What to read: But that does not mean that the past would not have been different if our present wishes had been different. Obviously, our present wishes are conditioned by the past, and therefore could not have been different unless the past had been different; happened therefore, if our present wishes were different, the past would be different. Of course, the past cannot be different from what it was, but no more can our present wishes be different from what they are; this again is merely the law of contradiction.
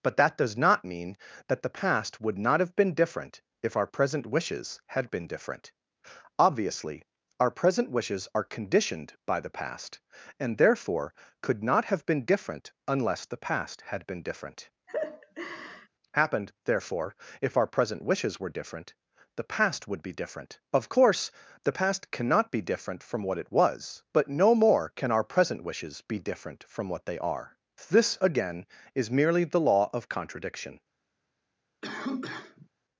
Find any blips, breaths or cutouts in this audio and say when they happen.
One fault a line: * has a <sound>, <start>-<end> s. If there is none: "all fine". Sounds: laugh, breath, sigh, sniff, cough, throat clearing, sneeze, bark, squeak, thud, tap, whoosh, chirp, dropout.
* has a laugh, 14.9-15.9 s
* has a cough, 31.8-32.7 s